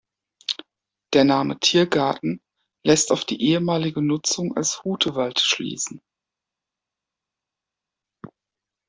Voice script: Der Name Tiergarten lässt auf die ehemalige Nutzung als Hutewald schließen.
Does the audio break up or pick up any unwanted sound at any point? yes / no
no